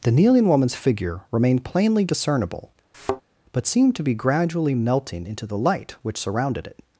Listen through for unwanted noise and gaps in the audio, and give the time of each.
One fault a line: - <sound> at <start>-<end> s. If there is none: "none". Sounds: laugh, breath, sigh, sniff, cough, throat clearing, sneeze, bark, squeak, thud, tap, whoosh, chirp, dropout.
- thud at 2.9-3.2 s